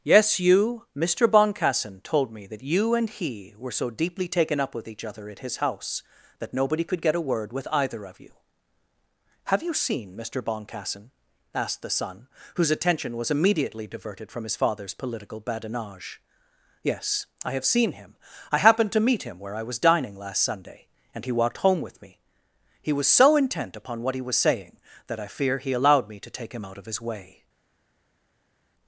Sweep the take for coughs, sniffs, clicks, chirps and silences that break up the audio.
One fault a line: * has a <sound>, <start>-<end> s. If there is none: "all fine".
all fine